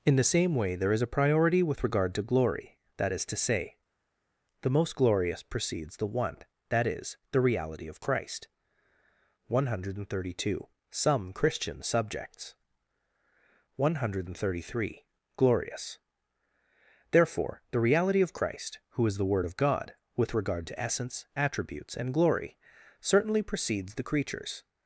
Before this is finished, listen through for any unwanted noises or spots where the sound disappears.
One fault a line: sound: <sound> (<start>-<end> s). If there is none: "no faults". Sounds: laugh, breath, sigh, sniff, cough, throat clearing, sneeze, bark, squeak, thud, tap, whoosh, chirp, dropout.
no faults